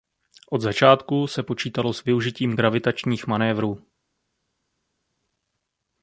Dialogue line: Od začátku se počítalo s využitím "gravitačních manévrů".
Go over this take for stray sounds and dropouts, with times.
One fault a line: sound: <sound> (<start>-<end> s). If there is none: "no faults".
no faults